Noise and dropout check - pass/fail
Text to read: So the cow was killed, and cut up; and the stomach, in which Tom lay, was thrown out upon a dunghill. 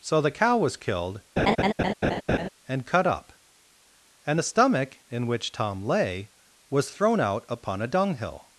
fail